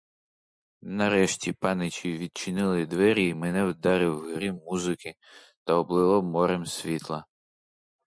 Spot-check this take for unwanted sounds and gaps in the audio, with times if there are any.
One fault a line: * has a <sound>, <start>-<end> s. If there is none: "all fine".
all fine